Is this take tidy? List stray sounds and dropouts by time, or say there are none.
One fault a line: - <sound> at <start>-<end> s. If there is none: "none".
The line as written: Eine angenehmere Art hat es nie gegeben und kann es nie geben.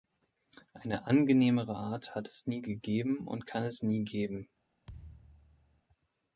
- thud at 4.9-5.8 s